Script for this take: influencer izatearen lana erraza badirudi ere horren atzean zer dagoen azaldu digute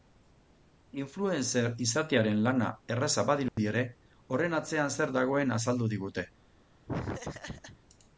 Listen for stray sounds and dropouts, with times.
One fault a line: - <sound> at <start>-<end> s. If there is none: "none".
- dropout at 3.5-3.6 s
- laugh at 6.9-7.8 s